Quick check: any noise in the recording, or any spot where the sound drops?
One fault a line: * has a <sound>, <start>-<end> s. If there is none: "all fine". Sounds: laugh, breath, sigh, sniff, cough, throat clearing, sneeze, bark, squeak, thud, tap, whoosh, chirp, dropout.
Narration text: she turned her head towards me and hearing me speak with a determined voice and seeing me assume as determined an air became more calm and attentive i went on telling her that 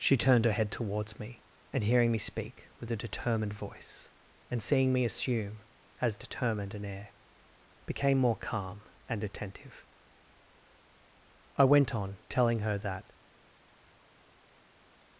all fine